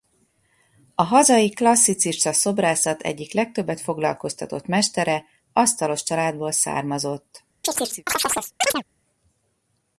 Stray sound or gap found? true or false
true